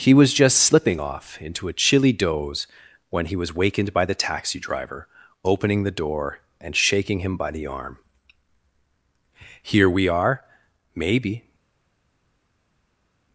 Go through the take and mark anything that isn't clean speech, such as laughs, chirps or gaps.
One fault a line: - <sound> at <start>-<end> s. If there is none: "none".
none